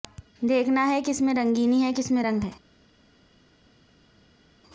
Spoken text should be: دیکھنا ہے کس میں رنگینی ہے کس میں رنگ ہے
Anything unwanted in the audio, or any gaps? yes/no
no